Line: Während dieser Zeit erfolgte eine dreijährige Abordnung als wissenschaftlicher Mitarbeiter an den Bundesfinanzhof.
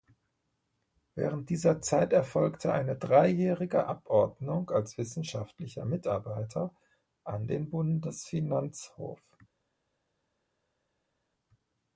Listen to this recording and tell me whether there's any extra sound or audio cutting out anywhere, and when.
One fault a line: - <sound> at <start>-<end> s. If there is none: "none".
none